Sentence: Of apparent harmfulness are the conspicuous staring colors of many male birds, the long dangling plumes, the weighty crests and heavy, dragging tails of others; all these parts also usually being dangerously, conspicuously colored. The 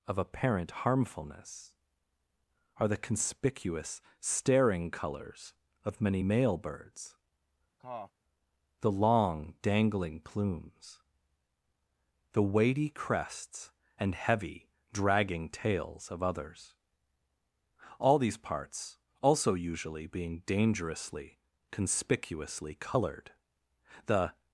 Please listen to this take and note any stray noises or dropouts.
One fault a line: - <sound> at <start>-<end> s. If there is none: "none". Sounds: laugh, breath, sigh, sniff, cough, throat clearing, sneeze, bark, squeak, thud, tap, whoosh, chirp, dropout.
- cough at 7.8-8.1 s